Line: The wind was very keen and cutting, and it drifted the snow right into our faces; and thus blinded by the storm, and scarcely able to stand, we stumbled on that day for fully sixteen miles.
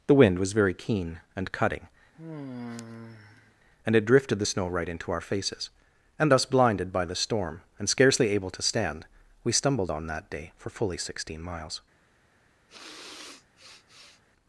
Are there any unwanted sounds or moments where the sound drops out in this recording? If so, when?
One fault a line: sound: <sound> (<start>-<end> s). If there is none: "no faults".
sound: sigh (2.1-3.6 s)
sound: sniff (12.7-14.2 s)